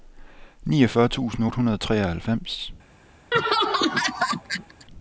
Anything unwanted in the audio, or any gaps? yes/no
yes